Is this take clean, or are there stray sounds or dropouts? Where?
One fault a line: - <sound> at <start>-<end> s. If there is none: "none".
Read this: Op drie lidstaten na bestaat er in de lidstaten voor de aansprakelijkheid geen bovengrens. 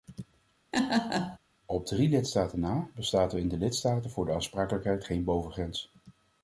- laugh at 0.7-1.4 s